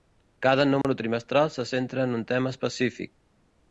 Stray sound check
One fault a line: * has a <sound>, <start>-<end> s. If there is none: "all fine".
* has a dropout, 0.8-0.8 s